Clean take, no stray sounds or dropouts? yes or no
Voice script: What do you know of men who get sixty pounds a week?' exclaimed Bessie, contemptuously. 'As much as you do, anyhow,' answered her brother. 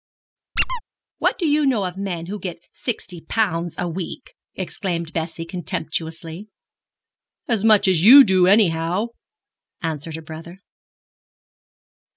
no